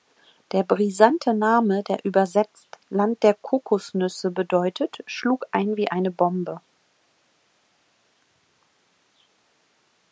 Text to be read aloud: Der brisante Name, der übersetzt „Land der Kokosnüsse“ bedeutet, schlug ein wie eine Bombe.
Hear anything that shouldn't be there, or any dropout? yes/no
no